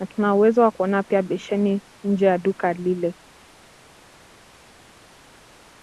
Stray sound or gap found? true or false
false